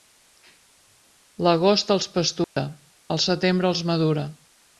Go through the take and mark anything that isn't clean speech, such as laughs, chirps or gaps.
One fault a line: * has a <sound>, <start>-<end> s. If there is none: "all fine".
* has a dropout, 2.4-2.6 s